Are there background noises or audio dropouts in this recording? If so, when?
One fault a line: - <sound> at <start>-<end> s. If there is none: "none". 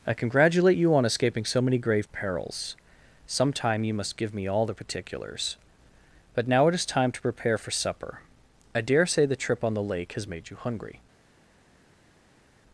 none